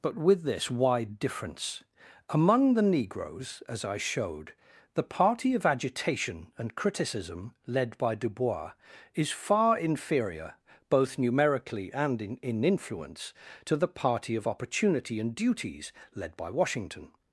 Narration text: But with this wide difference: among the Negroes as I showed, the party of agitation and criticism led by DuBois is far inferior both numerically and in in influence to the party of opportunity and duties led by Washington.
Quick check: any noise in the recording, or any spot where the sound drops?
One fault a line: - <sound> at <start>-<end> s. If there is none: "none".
none